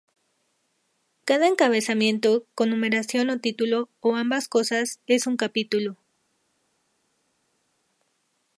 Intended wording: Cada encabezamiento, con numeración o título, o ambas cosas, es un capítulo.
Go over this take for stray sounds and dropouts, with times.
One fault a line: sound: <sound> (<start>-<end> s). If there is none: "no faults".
no faults